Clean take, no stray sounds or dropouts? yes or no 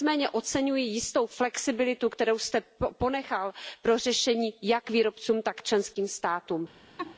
no